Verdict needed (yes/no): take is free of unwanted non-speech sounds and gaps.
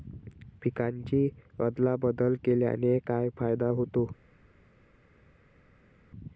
yes